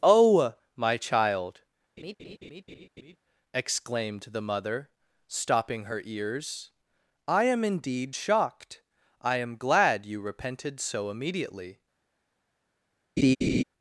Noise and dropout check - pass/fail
fail